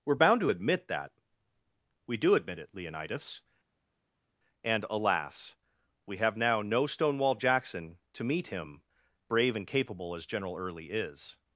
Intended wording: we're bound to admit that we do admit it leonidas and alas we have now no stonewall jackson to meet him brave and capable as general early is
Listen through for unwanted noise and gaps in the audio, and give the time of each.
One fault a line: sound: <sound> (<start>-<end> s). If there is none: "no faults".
no faults